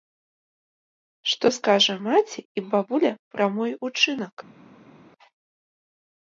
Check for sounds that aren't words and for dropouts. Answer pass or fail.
pass